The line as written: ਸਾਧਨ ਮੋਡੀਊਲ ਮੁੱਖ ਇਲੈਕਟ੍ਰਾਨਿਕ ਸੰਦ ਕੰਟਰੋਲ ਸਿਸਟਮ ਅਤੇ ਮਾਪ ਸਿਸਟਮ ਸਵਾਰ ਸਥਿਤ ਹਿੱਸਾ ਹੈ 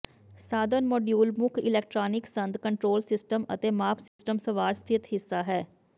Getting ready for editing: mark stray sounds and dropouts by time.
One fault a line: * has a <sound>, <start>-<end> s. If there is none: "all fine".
* has a dropout, 4.1-4.2 s